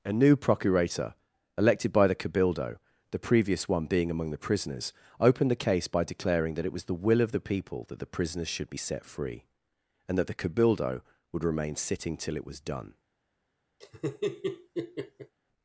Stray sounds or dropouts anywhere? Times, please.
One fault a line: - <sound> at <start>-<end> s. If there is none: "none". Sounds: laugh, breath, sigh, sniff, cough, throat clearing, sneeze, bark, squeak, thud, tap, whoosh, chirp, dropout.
- laugh at 13.8-15.4 s